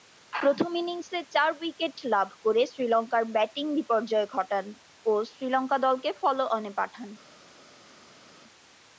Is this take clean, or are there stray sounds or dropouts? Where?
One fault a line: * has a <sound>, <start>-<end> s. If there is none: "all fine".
all fine